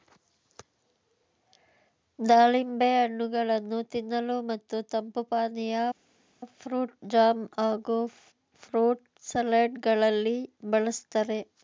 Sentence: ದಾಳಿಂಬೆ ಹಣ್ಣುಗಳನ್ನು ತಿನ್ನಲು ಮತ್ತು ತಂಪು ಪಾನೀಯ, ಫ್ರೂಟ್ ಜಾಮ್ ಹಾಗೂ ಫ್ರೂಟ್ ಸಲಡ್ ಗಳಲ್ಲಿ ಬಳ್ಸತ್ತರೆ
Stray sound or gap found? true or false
false